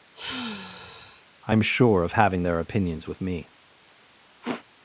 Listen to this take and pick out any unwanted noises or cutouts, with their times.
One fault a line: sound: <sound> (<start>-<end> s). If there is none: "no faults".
sound: sigh (0.1-1.2 s)
sound: sniff (4.4-4.7 s)